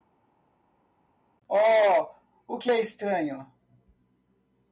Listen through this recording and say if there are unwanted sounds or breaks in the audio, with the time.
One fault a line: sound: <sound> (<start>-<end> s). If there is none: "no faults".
no faults